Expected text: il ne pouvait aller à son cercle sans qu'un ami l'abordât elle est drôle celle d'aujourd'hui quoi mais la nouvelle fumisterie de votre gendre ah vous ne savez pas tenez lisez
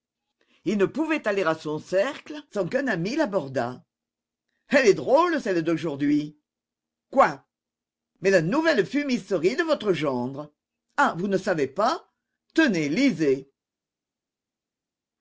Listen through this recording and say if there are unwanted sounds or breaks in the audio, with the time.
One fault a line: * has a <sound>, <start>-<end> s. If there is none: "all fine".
all fine